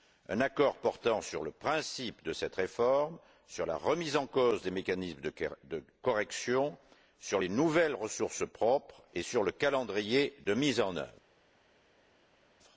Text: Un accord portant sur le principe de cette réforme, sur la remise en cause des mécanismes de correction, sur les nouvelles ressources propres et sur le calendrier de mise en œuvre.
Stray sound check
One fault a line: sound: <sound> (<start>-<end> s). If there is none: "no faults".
no faults